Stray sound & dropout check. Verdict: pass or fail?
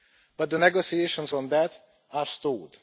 pass